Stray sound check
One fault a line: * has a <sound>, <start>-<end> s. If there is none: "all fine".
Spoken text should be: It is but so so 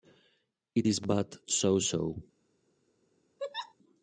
* has a laugh, 3.4-3.8 s